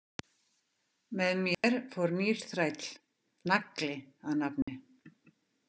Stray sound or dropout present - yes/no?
yes